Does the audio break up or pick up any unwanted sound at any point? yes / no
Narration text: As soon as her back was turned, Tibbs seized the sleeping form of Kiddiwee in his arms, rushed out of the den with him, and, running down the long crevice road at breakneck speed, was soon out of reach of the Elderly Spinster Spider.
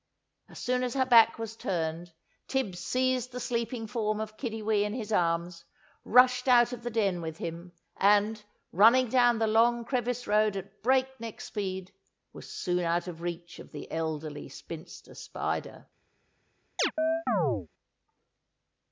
yes